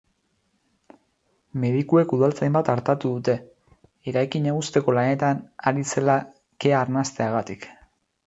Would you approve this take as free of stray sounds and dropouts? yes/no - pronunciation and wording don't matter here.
yes